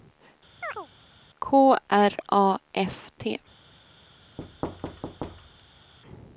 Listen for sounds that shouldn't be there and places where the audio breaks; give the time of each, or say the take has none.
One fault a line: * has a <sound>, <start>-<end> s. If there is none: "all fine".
* has a chirp, 0.6-0.9 s
* has a thud, 4.4-5.9 s